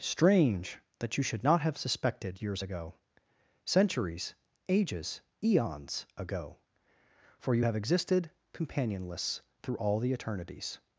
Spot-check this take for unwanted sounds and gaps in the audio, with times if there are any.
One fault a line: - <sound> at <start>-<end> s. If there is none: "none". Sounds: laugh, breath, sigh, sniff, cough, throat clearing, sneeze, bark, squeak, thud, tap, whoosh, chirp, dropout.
none